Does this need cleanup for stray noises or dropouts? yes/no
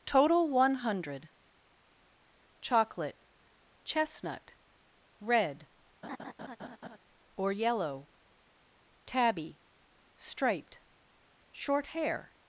yes